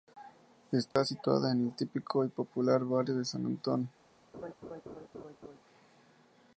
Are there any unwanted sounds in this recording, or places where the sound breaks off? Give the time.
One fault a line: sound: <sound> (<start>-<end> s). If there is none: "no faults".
sound: dropout (0.9-1.0 s)
sound: laugh (4.3-5.6 s)